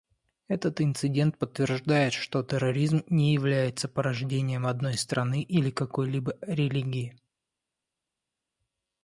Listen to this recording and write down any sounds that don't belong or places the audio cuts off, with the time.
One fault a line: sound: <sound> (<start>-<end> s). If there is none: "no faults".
no faults